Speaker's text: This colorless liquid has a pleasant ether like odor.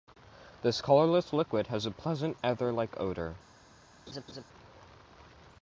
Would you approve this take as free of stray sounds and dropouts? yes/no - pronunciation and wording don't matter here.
no